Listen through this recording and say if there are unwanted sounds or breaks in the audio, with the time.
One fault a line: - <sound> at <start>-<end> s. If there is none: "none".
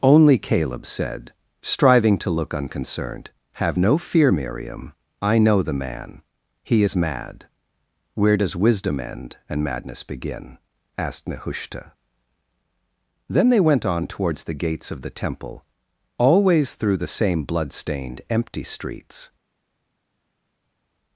none